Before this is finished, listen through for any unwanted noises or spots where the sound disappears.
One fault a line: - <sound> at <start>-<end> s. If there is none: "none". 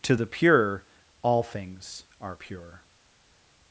none